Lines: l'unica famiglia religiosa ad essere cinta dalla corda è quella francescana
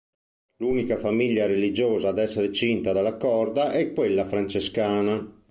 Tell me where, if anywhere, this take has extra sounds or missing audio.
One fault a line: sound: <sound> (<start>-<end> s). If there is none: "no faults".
no faults